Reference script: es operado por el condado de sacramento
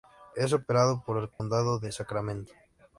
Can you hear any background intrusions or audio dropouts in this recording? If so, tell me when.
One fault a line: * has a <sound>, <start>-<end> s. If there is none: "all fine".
* has a dropout, 1.3-1.4 s